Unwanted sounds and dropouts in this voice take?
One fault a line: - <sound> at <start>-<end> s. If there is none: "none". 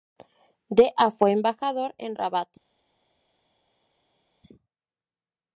none